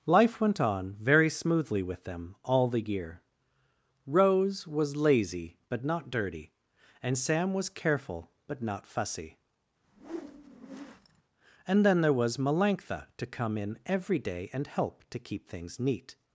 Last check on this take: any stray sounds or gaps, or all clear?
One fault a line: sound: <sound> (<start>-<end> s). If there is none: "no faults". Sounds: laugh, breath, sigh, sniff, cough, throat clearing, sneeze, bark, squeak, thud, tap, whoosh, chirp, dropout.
sound: whoosh (9.8-11.2 s)